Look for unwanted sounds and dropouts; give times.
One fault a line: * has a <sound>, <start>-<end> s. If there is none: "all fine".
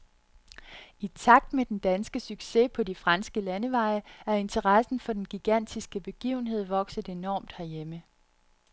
all fine